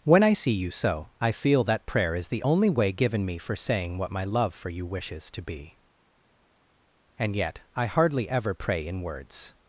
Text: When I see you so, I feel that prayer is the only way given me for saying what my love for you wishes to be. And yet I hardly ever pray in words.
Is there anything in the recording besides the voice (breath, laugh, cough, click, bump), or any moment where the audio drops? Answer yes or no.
no